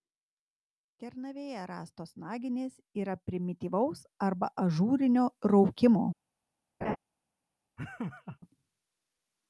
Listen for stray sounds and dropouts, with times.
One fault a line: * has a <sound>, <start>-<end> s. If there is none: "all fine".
* has a laugh, 6.8-7.0 s
* has a laugh, 7.8-8.4 s